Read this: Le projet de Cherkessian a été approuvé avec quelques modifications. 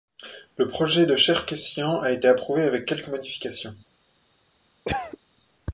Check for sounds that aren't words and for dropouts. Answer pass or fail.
fail